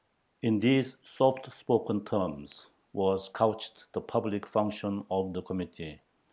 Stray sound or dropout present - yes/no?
no